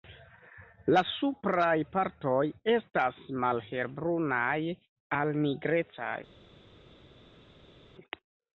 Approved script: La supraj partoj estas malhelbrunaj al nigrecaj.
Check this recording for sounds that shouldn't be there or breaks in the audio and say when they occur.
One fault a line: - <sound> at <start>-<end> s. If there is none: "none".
none